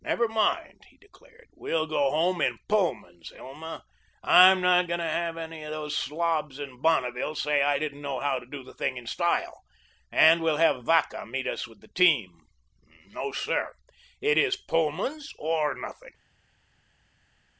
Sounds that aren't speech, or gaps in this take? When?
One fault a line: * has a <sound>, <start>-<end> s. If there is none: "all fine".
all fine